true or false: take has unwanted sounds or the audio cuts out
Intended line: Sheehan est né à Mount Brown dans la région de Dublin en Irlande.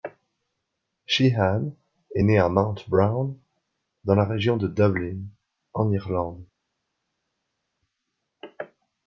false